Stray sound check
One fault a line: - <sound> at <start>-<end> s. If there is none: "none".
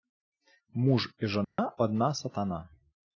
- dropout at 1.4-1.6 s